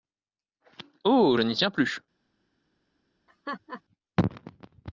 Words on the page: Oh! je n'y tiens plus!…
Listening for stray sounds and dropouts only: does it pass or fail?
fail